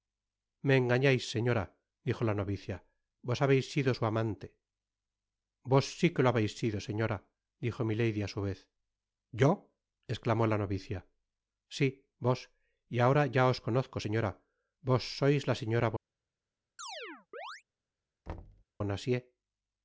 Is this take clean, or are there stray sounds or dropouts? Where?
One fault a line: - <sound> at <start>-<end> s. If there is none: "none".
- chirp at 16.8-17.6 s
- thud at 18.3-18.6 s